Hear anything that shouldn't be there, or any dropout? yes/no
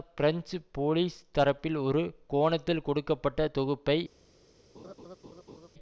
yes